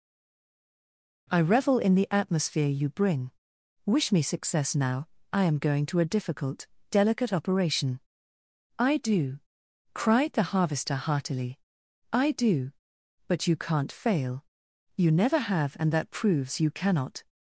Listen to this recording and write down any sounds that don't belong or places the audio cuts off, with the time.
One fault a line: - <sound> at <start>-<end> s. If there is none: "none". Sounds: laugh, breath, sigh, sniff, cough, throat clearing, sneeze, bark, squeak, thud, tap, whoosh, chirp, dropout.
none